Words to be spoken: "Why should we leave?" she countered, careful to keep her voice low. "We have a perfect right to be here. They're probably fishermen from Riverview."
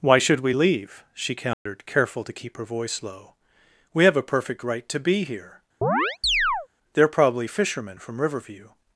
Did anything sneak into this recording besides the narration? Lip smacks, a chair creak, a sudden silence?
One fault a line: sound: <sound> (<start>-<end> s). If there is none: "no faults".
sound: dropout (1.5-1.7 s)
sound: chirp (5.8-6.7 s)